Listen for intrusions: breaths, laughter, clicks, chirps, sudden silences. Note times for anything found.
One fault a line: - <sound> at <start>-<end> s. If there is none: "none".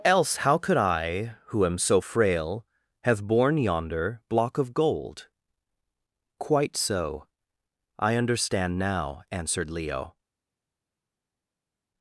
none